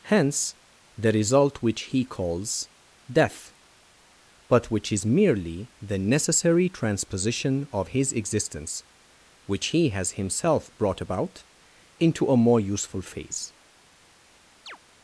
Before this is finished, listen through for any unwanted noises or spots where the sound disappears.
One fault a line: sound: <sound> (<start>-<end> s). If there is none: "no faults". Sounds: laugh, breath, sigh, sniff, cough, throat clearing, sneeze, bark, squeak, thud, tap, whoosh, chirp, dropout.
sound: chirp (14.7-14.8 s)